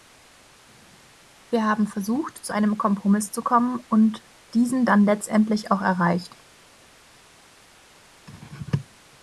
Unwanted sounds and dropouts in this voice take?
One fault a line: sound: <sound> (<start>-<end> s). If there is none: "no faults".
no faults